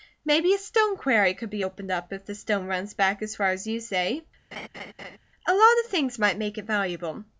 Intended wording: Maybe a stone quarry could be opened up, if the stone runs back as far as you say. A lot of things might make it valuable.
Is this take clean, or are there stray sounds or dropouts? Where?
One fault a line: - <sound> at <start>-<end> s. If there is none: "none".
- laugh at 4.5-5.2 s